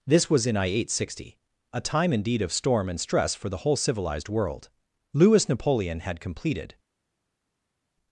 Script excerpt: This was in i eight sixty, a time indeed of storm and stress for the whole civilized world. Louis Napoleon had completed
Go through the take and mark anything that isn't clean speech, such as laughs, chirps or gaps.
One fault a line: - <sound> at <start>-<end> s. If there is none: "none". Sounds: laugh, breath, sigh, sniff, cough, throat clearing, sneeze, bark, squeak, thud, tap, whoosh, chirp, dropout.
none